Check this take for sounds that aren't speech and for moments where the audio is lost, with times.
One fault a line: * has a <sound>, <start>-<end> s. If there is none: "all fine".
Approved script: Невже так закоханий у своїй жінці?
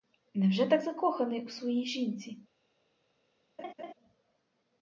* has a laugh, 3.6-3.9 s